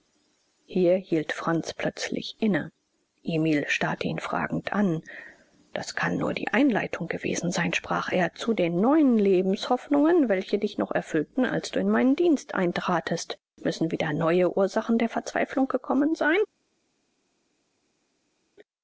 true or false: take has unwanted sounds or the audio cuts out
false